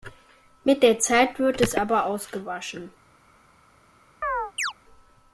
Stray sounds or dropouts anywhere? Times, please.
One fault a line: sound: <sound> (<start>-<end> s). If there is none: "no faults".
sound: chirp (4.2-4.7 s)